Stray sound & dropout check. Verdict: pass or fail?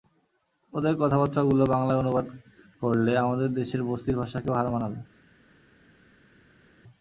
pass